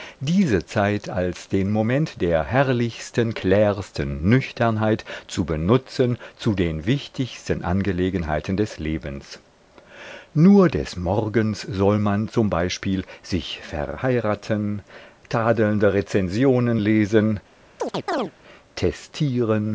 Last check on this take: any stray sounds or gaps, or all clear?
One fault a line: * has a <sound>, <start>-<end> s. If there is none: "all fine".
* has a chirp, 17.8-18.3 s